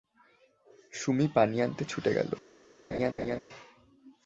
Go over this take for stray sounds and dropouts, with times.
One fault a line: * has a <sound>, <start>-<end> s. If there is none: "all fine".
* has a laugh, 2.9-3.4 s